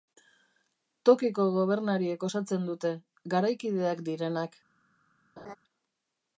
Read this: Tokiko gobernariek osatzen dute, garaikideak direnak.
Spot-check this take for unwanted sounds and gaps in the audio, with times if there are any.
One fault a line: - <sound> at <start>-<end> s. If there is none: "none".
- laugh at 5.4-5.6 s